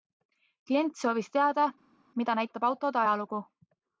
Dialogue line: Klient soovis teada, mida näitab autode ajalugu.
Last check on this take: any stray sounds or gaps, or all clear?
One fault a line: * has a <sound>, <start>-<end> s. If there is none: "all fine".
all fine